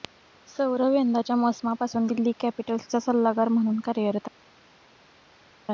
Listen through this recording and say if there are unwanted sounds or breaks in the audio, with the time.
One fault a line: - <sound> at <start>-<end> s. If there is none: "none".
none